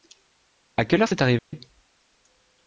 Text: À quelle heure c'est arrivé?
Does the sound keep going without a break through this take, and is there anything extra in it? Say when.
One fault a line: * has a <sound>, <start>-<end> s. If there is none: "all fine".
* has a dropout, 1.4-1.5 s